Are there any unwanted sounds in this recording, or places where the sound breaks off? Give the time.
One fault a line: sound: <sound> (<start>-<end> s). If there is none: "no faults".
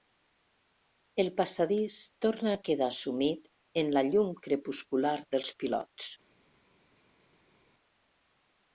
no faults